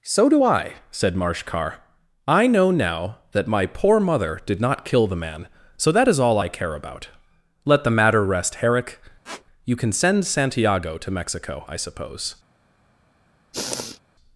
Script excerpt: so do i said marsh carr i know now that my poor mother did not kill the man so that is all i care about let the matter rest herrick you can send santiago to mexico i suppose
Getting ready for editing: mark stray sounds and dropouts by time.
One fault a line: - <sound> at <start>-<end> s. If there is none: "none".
- squeak at 9.2-9.5 s
- sniff at 13.5-14.0 s